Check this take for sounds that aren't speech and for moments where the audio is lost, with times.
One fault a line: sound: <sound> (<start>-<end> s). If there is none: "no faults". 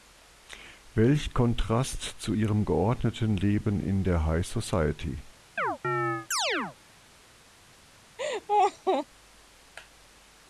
sound: chirp (5.6-6.8 s)
sound: laugh (8.2-9.1 s)